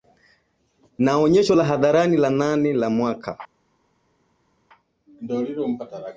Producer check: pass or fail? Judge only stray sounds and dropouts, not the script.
pass